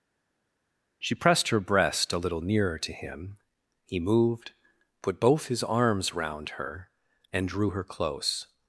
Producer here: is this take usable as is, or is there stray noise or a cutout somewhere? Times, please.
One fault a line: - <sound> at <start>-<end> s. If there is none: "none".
none